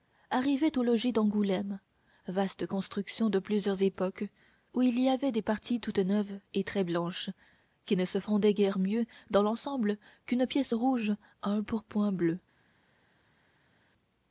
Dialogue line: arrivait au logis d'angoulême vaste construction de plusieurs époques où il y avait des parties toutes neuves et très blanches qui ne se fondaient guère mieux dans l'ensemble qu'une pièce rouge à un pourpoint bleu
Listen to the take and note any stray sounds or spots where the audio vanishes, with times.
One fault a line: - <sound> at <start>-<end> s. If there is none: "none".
none